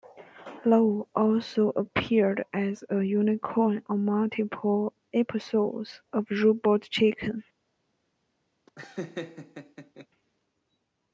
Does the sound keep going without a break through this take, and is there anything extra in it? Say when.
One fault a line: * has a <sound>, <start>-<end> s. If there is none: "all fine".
* has a laugh, 8.7-10.1 s